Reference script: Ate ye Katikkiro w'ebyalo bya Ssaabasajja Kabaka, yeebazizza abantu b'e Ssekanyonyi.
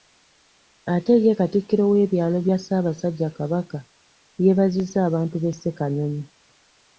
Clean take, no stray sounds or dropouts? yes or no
yes